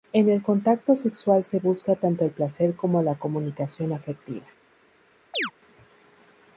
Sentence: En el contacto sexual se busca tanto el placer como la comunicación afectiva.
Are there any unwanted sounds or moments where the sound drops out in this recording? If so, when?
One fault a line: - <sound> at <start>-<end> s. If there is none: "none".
- chirp at 5.3-5.5 s